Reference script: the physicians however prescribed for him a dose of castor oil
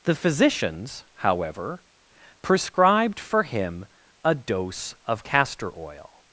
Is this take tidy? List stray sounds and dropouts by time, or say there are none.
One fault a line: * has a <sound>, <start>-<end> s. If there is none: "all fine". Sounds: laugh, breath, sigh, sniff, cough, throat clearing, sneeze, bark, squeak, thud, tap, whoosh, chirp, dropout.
all fine